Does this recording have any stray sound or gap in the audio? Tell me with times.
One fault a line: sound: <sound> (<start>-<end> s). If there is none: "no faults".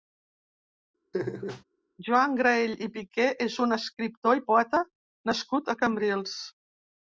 sound: laugh (1.1-1.6 s)